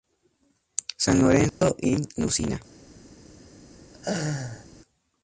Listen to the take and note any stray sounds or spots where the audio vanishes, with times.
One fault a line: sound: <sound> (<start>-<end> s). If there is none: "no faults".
sound: dropout (1.5-1.6 s)
sound: laugh (3.9-4.7 s)